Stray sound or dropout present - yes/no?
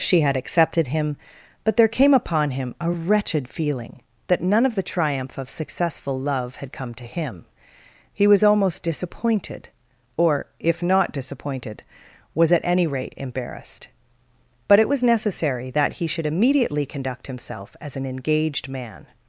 no